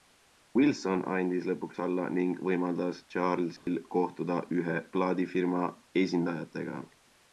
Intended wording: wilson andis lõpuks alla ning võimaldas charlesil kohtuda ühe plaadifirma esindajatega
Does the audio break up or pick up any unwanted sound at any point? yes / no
yes